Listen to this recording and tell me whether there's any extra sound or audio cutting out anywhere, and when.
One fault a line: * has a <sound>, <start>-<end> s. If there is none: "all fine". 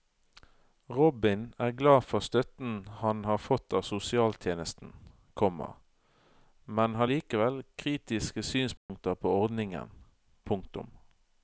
* has a dropout, 8.8-8.9 s